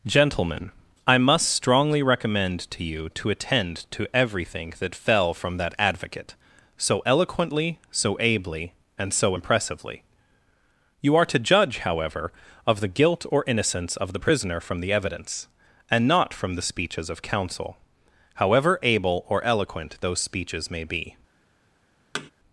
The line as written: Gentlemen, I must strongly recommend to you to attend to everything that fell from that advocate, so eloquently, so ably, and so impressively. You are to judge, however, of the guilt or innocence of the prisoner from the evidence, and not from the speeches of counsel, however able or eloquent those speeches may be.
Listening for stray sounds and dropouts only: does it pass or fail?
fail